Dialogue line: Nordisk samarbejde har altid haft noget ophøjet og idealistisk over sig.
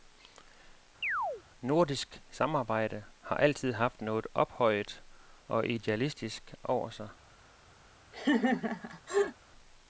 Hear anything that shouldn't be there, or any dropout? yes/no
yes